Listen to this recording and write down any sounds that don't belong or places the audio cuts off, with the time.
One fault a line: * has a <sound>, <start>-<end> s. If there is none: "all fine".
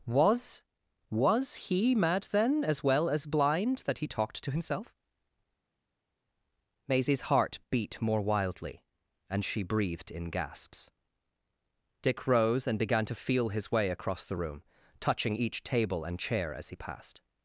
all fine